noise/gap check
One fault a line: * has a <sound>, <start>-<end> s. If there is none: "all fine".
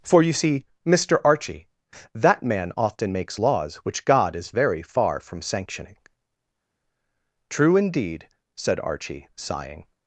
all fine